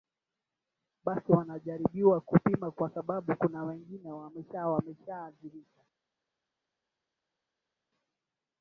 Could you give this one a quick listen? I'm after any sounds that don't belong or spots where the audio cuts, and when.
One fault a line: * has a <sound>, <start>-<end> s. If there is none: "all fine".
all fine